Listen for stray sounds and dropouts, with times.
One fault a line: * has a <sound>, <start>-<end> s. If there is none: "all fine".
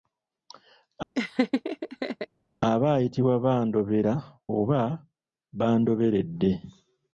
* has a laugh, 1.1-2.3 s